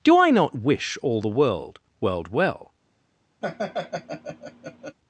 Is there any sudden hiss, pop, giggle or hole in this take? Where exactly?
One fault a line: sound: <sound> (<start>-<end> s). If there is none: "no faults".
sound: laugh (3.4-5.0 s)